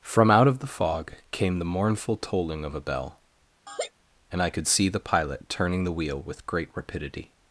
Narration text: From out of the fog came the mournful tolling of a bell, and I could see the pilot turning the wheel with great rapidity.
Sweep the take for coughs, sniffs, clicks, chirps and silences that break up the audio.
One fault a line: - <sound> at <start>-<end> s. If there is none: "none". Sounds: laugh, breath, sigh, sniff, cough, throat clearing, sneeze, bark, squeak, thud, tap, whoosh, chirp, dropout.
- laugh at 3.7-3.9 s